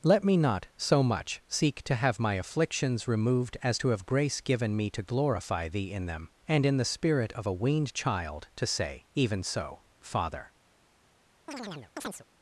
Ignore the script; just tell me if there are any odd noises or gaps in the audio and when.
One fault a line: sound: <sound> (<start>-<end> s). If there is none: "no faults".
sound: chirp (11.5-12.3 s)